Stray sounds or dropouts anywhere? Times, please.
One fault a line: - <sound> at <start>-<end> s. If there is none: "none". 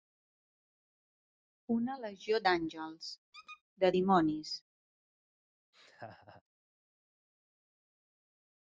- squeak at 3.3-3.6 s
- laugh at 5.7-6.4 s